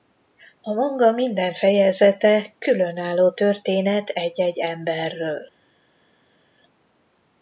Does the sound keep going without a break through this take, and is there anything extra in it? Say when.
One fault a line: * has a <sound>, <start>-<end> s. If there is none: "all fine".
all fine